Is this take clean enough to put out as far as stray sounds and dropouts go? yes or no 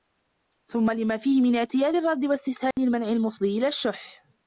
no